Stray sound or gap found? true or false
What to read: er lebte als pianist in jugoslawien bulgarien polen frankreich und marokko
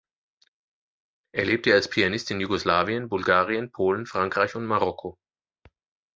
false